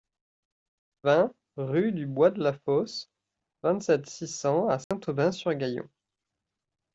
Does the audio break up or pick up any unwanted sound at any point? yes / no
yes